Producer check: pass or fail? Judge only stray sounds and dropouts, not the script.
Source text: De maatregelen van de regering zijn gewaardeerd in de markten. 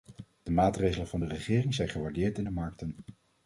pass